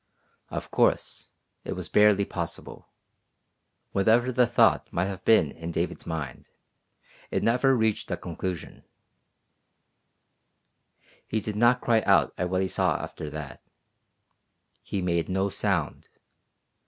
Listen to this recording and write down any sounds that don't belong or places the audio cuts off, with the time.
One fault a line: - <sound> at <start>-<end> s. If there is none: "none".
none